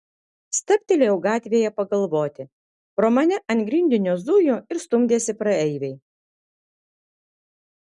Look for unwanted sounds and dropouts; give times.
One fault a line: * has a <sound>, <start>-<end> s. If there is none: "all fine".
all fine